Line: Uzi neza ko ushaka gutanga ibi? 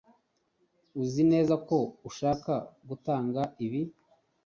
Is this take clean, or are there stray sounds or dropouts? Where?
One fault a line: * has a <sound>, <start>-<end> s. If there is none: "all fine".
all fine